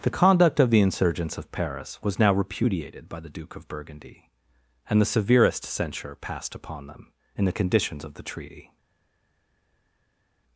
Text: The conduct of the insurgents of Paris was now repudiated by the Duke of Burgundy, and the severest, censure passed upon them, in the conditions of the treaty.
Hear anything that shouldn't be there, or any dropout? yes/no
no